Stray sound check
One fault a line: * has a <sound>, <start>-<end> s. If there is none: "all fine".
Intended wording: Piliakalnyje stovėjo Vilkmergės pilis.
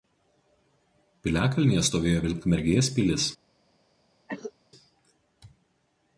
* has a cough, 4.3-4.5 s